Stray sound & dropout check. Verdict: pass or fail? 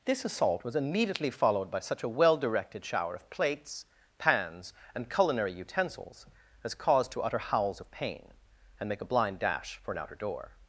pass